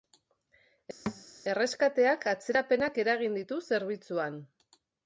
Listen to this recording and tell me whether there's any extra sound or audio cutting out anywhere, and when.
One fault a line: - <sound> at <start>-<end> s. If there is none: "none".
- thud at 1.1-1.2 s